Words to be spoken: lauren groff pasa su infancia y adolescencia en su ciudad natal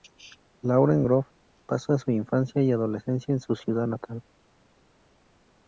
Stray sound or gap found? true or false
false